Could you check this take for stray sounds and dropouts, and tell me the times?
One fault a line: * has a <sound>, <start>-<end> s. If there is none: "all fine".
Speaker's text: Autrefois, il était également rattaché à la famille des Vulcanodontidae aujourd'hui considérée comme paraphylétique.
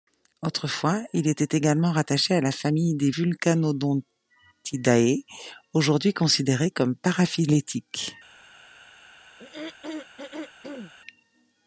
* has a throat clearing, 9.4-10.9 s